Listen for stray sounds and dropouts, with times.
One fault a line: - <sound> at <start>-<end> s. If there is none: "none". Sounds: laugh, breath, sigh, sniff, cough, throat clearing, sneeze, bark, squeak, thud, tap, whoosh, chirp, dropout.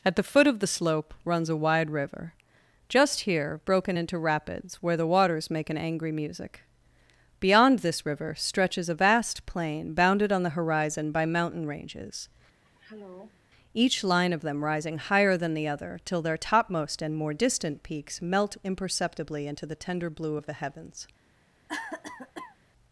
- throat clearing at 12.6-13.5 s
- cough at 21.7-22.6 s